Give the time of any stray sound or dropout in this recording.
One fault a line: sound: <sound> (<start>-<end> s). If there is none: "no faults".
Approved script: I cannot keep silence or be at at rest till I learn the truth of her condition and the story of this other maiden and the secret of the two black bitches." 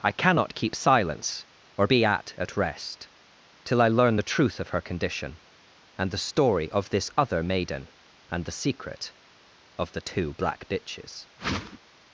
sound: whoosh (11.4-11.8 s)